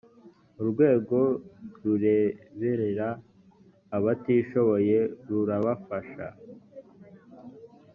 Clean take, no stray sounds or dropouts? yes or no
yes